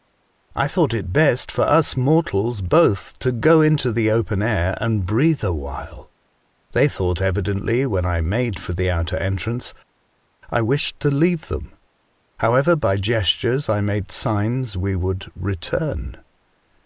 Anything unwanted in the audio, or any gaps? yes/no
no